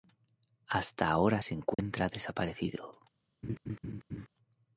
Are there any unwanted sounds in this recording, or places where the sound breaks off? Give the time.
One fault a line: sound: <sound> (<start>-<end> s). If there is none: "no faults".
sound: dropout (1.7-1.8 s)
sound: laugh (3.4-4.3 s)